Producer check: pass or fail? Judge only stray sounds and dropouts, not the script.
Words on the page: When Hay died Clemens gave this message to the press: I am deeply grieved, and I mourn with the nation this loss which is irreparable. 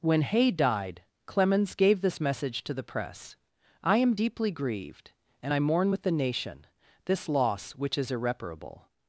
pass